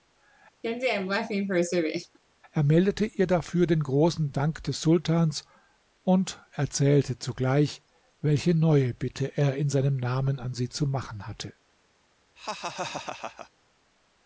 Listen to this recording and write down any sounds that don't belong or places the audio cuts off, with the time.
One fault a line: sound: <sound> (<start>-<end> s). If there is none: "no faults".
sound: laugh (0.6-2.2 s)
sound: laugh (12.4-13.5 s)